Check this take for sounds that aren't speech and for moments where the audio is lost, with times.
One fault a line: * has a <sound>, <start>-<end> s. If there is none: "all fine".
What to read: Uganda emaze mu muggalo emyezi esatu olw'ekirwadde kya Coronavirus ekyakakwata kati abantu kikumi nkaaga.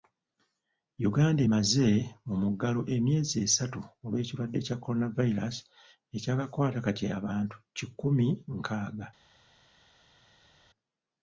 all fine